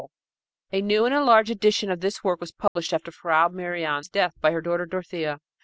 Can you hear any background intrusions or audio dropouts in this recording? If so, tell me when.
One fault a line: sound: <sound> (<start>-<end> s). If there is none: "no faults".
sound: dropout (2.7-2.8 s)